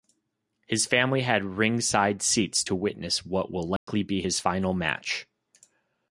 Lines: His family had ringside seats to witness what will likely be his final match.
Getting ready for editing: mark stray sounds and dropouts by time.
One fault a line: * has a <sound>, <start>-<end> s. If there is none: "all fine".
* has a dropout, 3.8-3.9 s